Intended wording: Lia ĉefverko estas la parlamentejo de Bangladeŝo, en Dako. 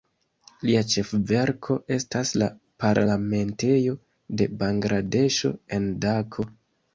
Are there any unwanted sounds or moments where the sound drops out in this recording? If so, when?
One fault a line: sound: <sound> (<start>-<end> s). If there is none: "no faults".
no faults